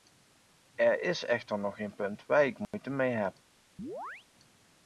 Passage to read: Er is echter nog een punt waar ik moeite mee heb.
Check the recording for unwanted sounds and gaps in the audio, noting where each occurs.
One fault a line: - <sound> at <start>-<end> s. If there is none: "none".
- dropout at 2.6-2.7 s
- chirp at 3.8-4.3 s